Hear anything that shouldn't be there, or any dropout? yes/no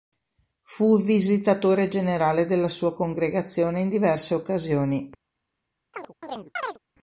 yes